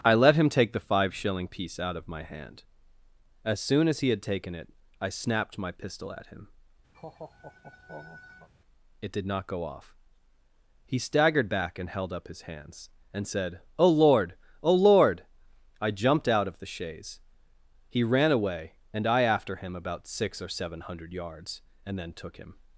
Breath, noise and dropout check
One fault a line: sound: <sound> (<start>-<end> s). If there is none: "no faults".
sound: laugh (6.9-8.5 s)